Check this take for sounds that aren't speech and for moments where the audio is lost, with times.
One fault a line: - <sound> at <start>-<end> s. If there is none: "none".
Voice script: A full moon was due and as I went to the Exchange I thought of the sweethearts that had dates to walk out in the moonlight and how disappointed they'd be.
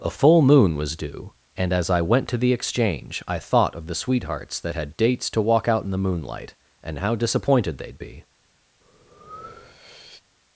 - breath at 8.8-10.2 s